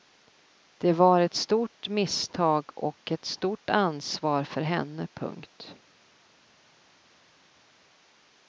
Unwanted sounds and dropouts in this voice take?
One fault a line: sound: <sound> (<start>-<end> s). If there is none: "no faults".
no faults